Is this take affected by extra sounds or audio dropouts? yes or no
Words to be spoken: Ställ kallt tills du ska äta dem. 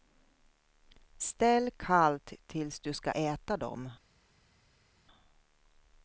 no